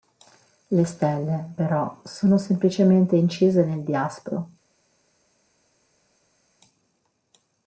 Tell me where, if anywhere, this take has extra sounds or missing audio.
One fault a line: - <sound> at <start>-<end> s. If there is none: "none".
none